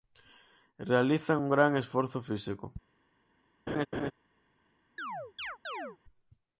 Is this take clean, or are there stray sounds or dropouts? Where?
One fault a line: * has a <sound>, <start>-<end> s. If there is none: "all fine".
* has a laugh, 3.7-4.1 s
* has a chirp, 5.0-6.0 s